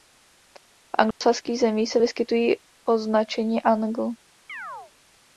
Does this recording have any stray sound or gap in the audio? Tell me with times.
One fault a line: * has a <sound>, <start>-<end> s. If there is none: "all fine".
* has a dropout, 1.1-1.2 s
* has a chirp, 4.5-4.9 s